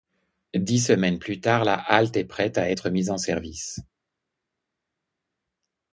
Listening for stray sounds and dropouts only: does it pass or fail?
pass